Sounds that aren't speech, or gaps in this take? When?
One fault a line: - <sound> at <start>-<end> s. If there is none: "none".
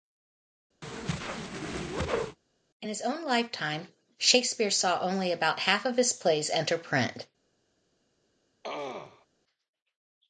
- whoosh at 0.8-2.4 s
- throat clearing at 8.6-9.3 s